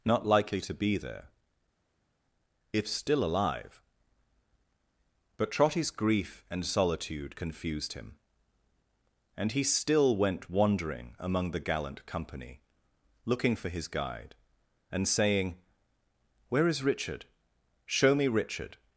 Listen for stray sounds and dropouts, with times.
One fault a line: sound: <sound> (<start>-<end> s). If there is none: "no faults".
no faults